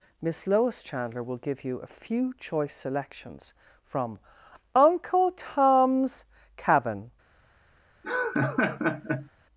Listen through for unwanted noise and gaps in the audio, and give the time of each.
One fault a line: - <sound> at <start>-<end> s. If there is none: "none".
- laugh at 8.0-9.3 s